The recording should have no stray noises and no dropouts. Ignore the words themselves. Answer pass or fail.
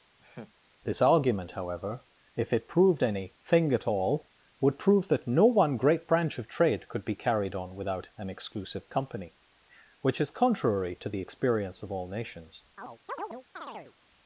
fail